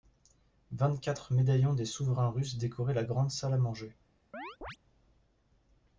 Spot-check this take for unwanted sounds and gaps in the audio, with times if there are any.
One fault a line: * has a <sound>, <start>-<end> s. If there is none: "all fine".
* has a chirp, 4.3-4.8 s